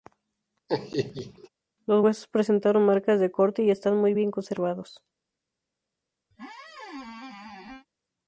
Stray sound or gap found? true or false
true